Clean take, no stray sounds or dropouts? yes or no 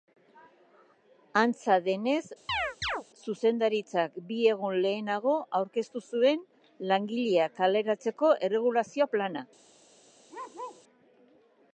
no